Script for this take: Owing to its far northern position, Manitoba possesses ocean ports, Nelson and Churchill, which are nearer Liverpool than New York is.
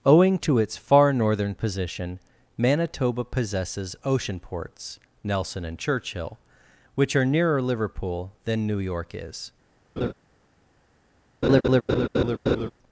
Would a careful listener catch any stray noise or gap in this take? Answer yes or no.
yes